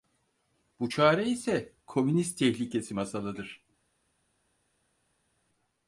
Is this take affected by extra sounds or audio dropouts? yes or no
no